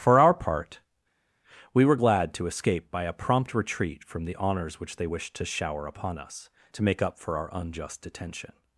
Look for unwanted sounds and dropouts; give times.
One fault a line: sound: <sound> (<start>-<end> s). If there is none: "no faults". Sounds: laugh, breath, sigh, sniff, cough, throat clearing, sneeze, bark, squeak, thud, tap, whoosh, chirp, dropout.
no faults